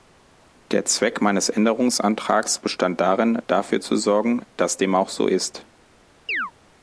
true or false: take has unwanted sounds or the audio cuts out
true